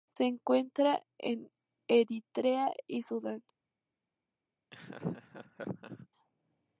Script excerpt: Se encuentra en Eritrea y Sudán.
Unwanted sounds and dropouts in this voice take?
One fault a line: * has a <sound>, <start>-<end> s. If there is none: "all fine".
* has a laugh, 4.7-6.1 s